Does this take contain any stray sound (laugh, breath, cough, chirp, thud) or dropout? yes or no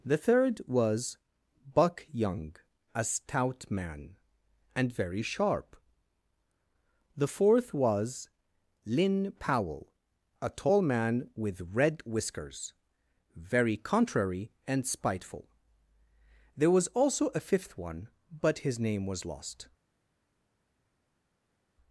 no